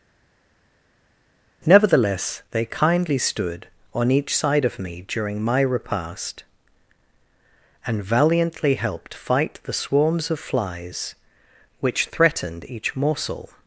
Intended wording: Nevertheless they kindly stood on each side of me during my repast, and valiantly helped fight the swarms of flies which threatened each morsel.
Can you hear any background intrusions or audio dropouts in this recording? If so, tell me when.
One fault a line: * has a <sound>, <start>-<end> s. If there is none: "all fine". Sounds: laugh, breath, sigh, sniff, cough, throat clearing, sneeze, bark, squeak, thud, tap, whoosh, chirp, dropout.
all fine